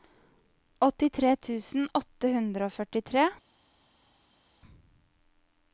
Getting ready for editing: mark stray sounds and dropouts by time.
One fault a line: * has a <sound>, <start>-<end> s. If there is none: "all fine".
all fine